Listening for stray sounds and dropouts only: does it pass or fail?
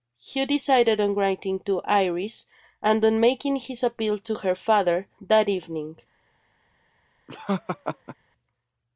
fail